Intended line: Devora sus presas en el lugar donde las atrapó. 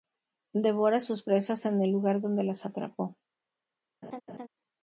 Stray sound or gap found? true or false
true